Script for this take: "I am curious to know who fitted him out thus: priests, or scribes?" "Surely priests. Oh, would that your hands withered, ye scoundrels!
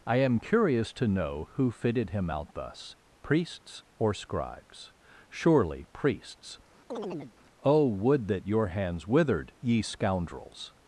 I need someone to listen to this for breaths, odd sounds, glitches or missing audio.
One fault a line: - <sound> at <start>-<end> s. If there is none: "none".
- chirp at 6.9-7.3 s